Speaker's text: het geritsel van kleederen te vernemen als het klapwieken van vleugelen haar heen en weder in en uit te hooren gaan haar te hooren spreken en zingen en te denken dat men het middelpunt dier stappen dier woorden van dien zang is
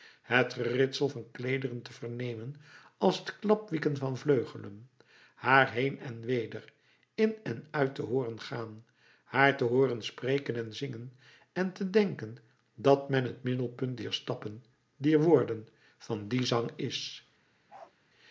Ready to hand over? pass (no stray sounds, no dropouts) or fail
fail